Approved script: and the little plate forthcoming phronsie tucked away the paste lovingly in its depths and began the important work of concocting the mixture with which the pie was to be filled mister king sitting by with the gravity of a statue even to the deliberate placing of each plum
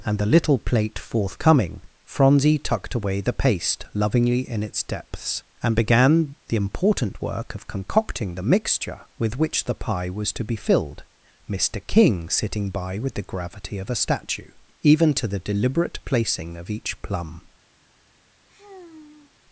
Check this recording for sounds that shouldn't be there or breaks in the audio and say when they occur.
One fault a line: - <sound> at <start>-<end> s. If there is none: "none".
- sigh at 18.5-19.4 s